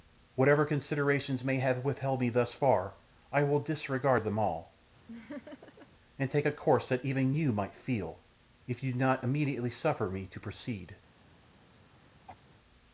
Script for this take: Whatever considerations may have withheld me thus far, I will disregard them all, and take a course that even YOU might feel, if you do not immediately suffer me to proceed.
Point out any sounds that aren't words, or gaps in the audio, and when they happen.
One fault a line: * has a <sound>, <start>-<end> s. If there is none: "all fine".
* has a laugh, 5.1-5.9 s
* has a throat clearing, 12.3-12.4 s